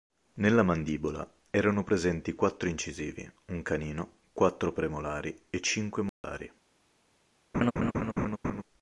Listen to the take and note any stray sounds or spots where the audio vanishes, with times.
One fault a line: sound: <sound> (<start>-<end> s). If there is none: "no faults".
sound: dropout (6.1-6.2 s)
sound: laugh (7.5-8.6 s)